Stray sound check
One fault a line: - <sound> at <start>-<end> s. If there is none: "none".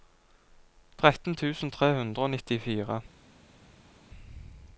none